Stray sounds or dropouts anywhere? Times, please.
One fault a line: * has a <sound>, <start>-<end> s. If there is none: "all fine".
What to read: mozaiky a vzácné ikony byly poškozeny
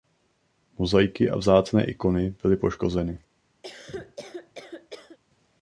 * has a cough, 3.6-5.2 s